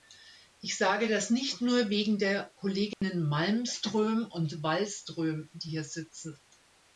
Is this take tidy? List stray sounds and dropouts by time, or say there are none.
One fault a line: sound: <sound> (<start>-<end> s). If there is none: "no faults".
sound: dropout (2.9-3.0 s)